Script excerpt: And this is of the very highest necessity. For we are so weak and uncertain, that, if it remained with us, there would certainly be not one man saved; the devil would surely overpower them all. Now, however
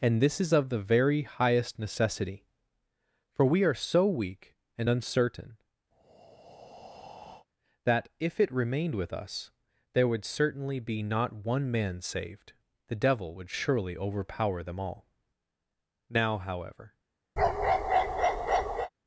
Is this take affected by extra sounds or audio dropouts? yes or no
yes